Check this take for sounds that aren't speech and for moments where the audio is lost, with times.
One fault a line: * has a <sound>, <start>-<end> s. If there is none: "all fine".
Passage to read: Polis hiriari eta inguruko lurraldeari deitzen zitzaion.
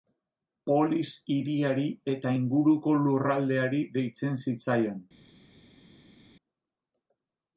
all fine